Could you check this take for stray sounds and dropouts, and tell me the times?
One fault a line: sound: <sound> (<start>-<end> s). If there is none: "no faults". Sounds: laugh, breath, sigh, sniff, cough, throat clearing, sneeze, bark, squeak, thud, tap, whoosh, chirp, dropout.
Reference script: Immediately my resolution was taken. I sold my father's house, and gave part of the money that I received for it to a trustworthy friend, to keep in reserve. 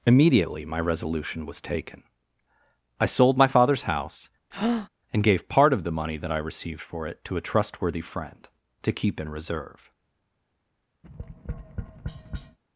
sound: breath (4.5-4.9 s)
sound: tap (11.0-12.6 s)